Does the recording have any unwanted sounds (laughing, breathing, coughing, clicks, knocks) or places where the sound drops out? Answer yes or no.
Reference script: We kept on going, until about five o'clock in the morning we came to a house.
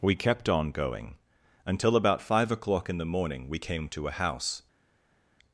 no